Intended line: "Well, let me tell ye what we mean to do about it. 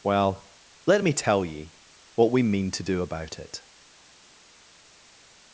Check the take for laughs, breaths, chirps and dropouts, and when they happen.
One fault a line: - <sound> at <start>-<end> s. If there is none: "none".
none